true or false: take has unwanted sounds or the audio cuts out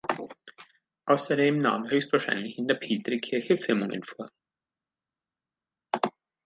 false